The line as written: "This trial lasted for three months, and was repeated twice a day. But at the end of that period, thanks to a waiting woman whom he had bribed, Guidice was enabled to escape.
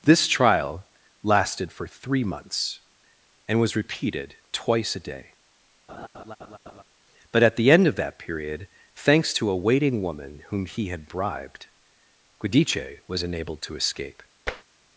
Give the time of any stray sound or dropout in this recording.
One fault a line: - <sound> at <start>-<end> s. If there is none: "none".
- laugh at 5.9-6.8 s
- tap at 14.5-14.6 s